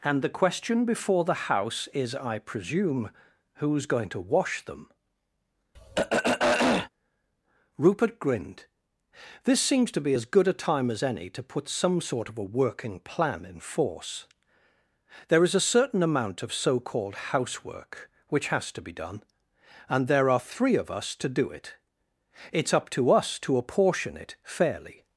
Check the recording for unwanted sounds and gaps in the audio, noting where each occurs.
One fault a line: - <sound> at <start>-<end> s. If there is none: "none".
- throat clearing at 5.7-6.9 s